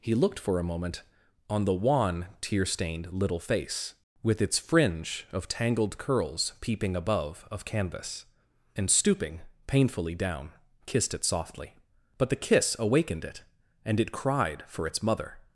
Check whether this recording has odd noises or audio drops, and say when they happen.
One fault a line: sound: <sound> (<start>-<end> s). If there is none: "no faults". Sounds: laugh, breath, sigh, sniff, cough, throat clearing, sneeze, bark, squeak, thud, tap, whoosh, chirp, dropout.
no faults